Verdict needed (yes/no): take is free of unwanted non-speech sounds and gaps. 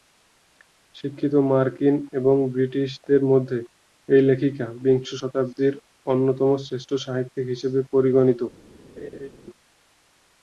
no